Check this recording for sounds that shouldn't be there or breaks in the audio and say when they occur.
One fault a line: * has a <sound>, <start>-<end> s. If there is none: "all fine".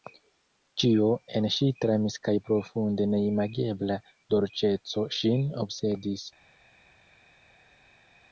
all fine